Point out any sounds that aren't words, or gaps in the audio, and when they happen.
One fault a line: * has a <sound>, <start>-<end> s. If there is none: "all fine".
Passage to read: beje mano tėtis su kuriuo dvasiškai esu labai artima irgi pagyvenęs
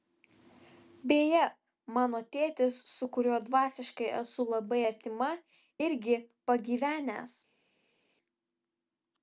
all fine